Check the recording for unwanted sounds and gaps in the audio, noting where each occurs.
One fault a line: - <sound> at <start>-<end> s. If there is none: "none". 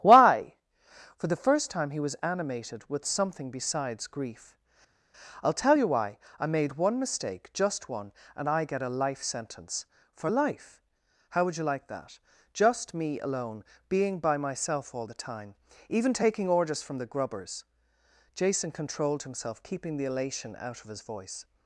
none